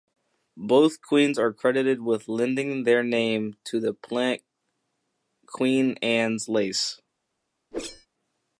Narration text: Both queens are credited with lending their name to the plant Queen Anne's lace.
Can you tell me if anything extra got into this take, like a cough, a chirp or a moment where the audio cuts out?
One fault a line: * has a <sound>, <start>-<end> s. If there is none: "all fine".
* has a whoosh, 7.7-8.1 s